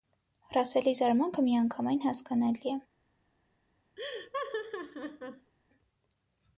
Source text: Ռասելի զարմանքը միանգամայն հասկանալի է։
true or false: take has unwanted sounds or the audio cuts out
true